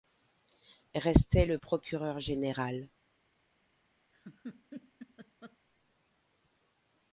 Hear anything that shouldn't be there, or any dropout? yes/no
yes